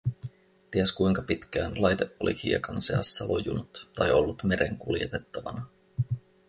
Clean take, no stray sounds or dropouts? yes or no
yes